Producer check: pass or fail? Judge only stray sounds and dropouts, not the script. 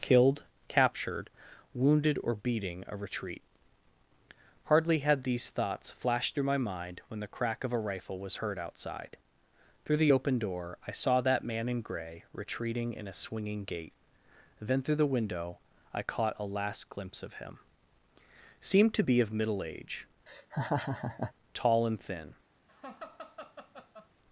fail